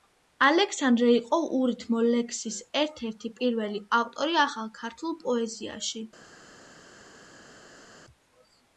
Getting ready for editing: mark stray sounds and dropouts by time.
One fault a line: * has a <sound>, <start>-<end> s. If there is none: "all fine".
all fine